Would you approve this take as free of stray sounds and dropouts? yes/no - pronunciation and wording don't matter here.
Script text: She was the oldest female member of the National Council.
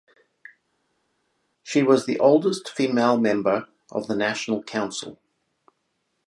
yes